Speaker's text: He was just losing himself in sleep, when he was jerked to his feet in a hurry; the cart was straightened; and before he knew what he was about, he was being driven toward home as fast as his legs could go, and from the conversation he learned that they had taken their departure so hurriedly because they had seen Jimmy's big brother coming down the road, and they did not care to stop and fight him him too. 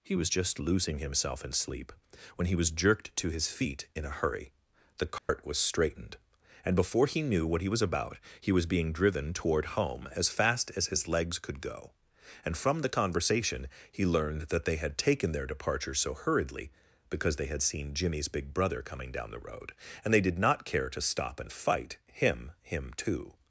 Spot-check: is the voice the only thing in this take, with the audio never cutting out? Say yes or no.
no